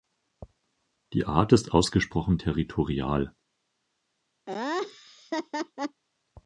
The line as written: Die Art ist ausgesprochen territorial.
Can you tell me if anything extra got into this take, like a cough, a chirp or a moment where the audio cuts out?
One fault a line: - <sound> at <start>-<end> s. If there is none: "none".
- laugh at 4.5-6.0 s